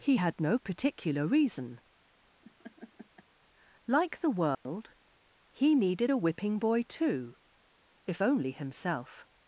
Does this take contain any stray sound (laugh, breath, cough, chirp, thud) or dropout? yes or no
yes